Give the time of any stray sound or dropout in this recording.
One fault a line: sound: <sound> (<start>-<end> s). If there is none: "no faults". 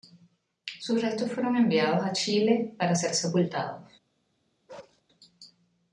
sound: bark (4.7-5.0 s)